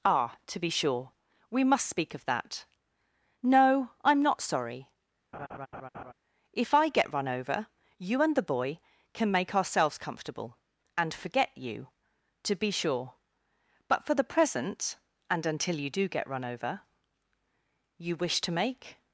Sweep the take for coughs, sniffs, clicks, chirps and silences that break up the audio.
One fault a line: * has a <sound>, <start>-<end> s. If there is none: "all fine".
* has a laugh, 5.3-6.1 s